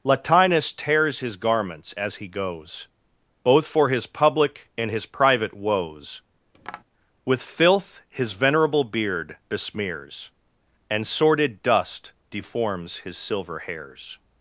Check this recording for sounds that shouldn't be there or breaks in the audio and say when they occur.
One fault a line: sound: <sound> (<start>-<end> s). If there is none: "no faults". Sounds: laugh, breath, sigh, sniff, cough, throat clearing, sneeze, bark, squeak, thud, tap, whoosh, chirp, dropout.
sound: tap (6.5-6.8 s)